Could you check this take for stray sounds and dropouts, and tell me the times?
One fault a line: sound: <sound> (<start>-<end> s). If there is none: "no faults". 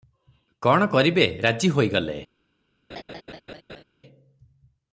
sound: laugh (2.9-3.8 s)